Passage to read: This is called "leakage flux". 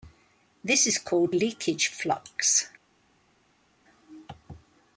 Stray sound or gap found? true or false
false